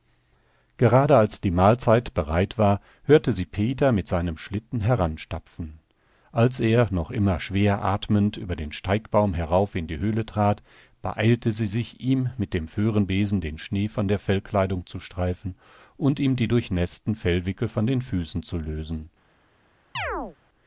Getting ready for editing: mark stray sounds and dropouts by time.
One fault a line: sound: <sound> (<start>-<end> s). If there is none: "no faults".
sound: chirp (19.9-20.4 s)